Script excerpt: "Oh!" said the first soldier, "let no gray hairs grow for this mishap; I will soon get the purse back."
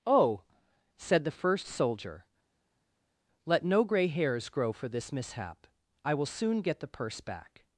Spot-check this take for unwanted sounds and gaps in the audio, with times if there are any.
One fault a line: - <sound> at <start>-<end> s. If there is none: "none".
none